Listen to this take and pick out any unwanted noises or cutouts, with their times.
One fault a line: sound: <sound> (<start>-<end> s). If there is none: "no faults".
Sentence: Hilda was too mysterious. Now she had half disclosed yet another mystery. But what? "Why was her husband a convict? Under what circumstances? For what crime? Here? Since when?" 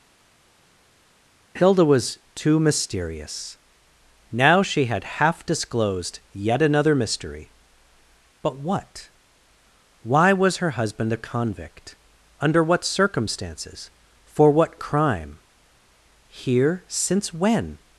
no faults